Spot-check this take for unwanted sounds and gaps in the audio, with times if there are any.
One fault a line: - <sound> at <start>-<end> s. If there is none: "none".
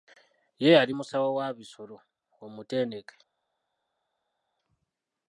none